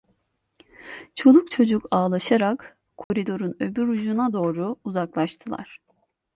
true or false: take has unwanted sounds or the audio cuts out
true